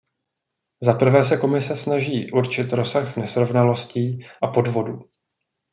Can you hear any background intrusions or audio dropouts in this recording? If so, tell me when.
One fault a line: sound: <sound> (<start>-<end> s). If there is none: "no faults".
no faults